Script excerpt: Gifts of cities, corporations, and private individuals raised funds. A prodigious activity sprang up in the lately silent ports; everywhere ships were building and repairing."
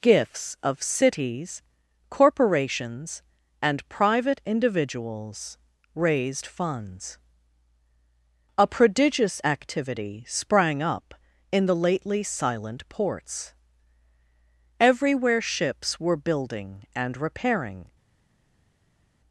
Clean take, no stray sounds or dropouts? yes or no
yes